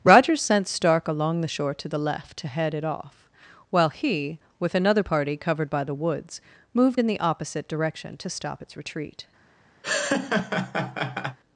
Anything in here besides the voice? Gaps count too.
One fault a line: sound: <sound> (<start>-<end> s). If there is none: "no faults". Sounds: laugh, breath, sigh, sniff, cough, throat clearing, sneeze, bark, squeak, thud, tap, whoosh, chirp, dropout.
sound: laugh (9.8-11.4 s)